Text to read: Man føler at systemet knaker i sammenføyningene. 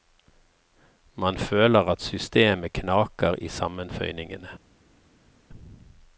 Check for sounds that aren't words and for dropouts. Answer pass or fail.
pass